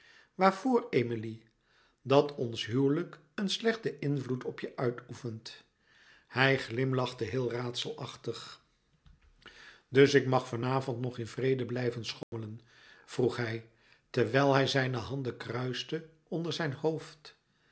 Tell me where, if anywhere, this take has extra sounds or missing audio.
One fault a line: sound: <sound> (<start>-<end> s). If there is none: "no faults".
sound: dropout (12.2-12.3 s)